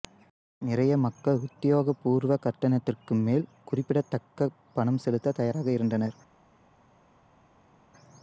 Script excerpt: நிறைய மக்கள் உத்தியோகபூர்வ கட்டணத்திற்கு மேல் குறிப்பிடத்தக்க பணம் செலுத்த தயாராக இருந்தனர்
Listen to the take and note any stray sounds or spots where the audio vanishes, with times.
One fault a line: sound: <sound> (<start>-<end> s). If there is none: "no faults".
no faults